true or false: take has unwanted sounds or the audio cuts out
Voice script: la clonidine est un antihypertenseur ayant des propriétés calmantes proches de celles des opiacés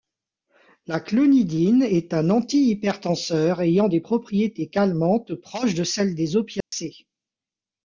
true